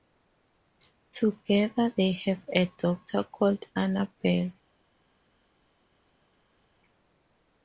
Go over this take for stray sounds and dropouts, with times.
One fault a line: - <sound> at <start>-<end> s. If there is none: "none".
none